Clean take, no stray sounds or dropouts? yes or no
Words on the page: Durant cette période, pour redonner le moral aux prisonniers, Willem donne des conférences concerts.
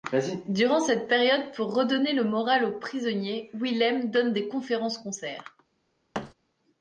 no